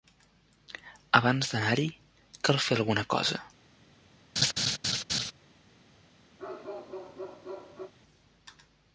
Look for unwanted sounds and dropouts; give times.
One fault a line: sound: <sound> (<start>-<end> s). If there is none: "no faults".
sound: laugh (4.4-5.3 s)
sound: bark (6.4-7.9 s)